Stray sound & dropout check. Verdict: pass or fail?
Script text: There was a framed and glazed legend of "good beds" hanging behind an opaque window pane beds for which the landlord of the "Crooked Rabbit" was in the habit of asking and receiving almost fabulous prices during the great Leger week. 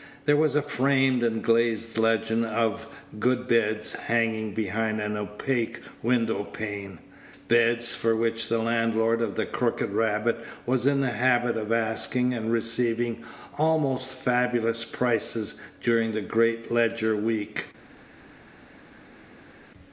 pass